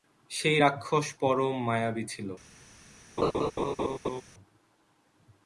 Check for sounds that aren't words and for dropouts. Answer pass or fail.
fail